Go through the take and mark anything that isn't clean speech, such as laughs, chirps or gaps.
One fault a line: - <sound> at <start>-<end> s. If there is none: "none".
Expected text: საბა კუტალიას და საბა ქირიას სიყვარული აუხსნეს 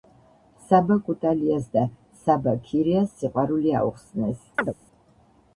- chirp at 4.6-4.7 s